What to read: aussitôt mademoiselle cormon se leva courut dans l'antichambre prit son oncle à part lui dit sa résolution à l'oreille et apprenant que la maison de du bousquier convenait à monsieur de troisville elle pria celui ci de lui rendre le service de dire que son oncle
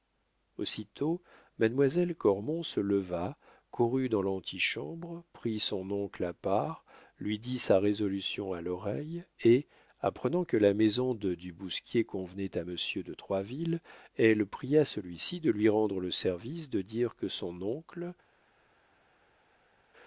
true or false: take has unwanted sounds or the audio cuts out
false